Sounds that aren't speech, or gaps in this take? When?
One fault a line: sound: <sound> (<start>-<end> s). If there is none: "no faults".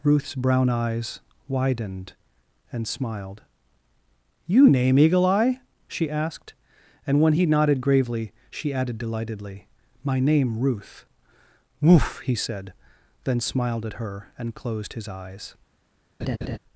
sound: laugh (16.2-16.6 s)